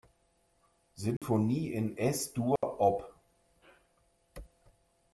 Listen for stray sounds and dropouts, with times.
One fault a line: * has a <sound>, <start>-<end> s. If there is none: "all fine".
* has a dropout, 1.2-1.2 s
* has a dropout, 2.6-2.6 s